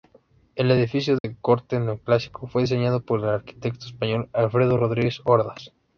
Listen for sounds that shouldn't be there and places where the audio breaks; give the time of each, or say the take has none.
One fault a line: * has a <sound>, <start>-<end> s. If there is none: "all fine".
* has a dropout, 1.2-1.2 s